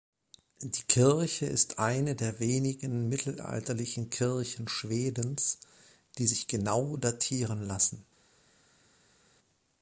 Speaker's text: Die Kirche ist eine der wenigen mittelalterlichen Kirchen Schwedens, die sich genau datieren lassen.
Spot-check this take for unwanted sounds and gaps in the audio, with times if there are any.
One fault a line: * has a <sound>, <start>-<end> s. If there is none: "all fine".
all fine